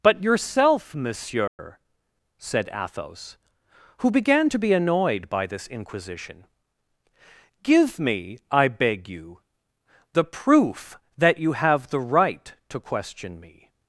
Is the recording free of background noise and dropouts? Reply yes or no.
no